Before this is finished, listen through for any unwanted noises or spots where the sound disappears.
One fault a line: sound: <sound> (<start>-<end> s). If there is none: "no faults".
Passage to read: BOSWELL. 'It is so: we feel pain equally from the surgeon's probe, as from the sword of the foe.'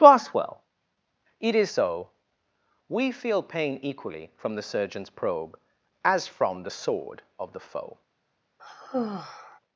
sound: sigh (8.6-9.6 s)